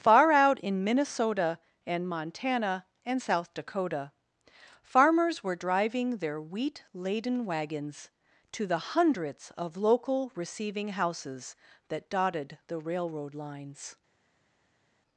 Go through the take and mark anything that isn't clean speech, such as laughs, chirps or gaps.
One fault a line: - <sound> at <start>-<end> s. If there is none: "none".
none